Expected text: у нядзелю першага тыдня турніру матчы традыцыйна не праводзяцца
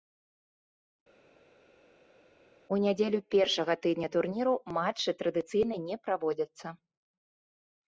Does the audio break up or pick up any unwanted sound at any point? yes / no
no